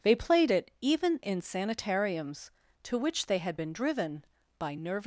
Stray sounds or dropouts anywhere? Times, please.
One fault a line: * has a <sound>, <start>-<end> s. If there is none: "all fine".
all fine